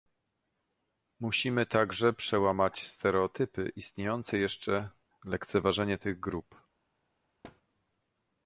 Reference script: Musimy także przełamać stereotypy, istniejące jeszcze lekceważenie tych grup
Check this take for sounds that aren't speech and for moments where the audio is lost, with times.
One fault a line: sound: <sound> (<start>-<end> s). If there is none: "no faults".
sound: thud (7.4-7.6 s)